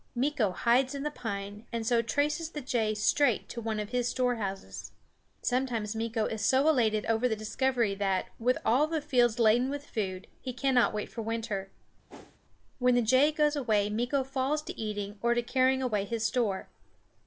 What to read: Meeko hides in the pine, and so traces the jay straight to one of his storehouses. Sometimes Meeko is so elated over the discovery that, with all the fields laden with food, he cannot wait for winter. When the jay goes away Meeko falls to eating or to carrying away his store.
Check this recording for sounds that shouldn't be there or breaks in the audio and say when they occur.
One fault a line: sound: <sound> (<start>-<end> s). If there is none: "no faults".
sound: whoosh (12.1-12.4 s)